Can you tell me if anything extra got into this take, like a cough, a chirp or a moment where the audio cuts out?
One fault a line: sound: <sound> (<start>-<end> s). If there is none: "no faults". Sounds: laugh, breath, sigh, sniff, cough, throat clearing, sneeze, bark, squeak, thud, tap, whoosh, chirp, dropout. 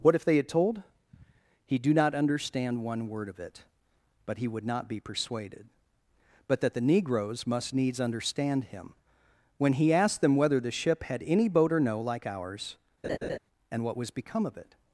sound: laugh (13.0-13.4 s)